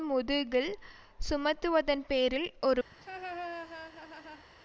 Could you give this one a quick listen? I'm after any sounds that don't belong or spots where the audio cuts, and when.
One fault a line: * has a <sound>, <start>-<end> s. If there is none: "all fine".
* has a laugh, 2.9-4.5 s